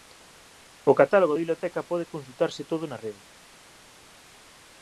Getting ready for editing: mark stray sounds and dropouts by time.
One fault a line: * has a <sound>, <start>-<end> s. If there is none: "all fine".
all fine